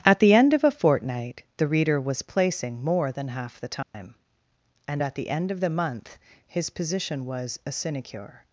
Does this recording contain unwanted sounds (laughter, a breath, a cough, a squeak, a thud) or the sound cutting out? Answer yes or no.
yes